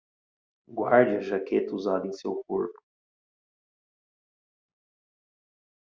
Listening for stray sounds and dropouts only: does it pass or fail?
pass